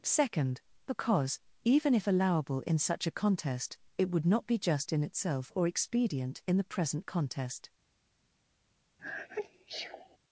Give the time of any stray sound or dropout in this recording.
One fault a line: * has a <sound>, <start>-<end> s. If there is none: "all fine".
* has a sneeze, 9.0-10.2 s